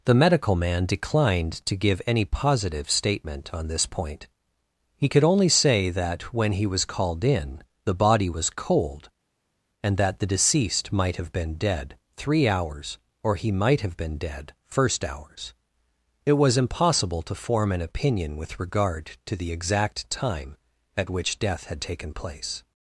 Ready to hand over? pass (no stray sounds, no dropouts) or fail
pass